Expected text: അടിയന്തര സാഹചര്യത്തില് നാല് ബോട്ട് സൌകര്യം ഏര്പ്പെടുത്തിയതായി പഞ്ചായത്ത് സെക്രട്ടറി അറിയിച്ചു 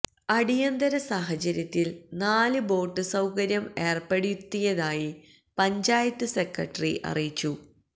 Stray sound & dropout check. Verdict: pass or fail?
pass